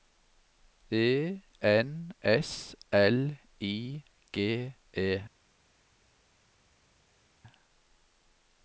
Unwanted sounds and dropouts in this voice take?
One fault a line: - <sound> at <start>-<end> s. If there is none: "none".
none